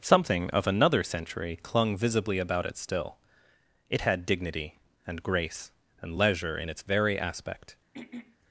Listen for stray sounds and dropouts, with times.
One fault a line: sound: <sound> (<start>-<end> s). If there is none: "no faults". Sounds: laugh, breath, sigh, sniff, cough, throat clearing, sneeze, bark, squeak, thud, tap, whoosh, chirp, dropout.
sound: throat clearing (7.9-8.4 s)